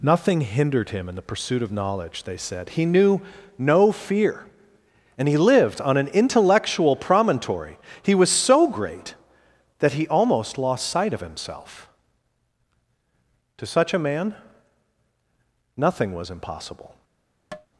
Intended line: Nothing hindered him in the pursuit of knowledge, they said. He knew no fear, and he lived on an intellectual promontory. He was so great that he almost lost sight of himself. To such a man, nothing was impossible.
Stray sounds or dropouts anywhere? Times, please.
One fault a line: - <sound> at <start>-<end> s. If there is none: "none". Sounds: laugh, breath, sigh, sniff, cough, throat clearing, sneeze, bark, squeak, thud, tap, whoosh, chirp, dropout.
- tap at 17.5-17.7 s